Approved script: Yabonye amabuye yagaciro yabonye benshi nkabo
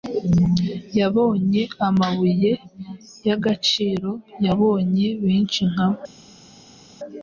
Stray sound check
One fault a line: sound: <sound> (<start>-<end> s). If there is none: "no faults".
no faults